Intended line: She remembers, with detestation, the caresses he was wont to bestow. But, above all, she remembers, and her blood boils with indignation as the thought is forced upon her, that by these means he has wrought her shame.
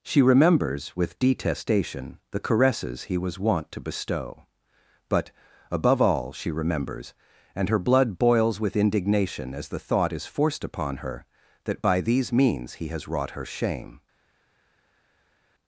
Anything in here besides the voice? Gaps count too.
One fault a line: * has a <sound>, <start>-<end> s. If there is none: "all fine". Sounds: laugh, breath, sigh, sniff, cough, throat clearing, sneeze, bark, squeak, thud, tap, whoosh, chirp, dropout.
all fine